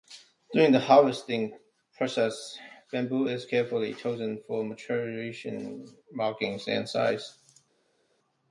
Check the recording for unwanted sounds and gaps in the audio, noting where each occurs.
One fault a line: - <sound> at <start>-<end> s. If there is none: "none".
none